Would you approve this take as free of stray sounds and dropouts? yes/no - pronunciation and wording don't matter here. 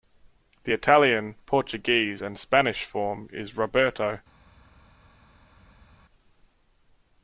yes